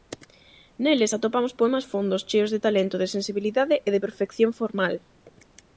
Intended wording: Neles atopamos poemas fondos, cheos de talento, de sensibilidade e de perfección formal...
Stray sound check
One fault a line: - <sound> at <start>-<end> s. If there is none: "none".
none